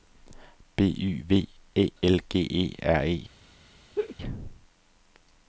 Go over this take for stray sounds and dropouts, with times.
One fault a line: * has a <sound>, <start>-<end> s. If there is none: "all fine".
* has a laugh, 3.9-4.2 s